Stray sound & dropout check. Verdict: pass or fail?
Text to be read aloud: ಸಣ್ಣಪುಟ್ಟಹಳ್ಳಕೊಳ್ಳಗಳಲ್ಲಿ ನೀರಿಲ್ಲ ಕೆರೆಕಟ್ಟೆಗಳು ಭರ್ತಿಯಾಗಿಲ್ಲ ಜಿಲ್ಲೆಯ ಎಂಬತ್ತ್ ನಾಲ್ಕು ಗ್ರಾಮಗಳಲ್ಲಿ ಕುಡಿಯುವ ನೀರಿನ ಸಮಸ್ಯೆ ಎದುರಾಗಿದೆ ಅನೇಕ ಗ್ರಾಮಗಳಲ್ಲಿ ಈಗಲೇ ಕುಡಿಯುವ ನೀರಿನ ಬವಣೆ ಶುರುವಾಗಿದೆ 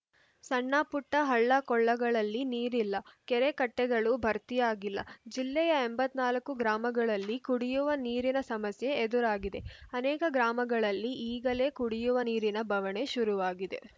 pass